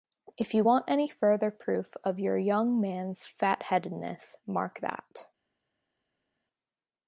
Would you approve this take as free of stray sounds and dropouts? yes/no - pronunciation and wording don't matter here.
yes